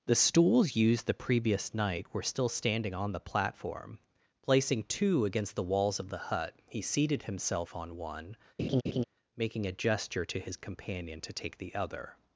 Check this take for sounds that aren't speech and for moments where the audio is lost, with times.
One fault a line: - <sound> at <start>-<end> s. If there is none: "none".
- laugh at 8.6-9.0 s